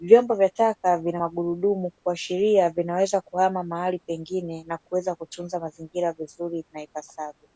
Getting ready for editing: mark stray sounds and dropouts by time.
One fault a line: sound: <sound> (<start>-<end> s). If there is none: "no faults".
no faults